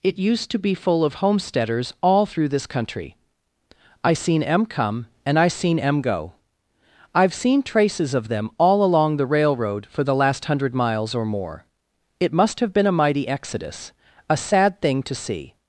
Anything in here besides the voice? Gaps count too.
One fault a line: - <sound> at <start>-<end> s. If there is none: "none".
none